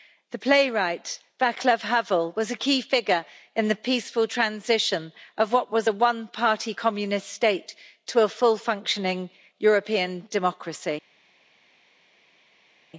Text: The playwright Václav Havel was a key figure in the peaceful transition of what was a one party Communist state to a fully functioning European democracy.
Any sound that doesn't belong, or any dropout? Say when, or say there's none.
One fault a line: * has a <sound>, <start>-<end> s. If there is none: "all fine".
all fine